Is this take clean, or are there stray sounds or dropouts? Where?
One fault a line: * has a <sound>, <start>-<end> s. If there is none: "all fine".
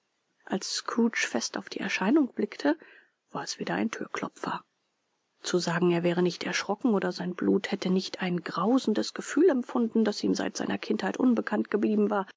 all fine